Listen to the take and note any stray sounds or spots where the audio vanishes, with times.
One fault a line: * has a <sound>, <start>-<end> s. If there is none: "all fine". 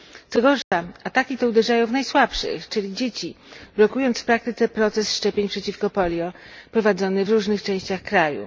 * has a dropout, 0.6-0.7 s